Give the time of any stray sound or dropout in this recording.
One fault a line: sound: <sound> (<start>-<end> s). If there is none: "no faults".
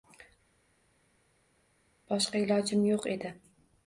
no faults